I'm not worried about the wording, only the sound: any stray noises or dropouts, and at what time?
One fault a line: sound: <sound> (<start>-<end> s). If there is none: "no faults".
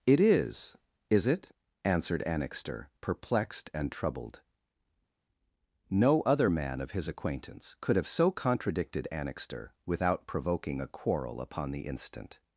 no faults